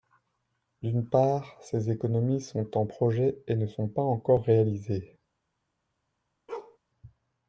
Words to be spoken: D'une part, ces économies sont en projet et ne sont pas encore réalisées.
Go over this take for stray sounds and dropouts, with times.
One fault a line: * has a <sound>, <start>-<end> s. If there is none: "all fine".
* has a bark, 6.5-6.8 s